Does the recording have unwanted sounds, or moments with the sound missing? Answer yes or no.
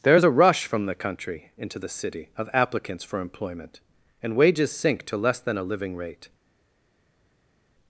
no